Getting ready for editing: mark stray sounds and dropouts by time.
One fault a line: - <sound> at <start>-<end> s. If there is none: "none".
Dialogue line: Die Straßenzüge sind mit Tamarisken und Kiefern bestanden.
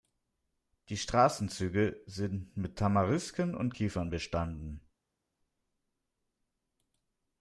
none